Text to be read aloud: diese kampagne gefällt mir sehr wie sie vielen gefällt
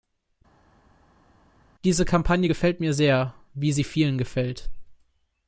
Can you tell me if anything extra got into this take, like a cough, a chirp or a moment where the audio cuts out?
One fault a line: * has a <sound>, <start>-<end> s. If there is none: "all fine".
all fine